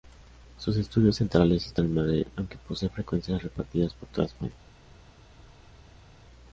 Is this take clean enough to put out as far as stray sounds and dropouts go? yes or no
yes